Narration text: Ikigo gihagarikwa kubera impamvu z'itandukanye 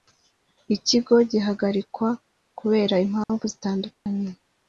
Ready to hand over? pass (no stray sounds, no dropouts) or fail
fail